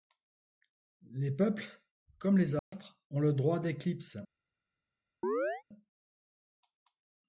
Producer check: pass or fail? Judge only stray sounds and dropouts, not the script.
fail